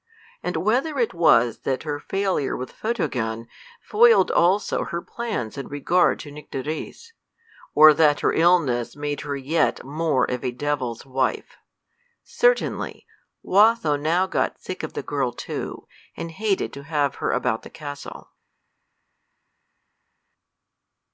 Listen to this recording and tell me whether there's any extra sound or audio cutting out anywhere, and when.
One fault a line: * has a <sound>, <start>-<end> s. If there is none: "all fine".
all fine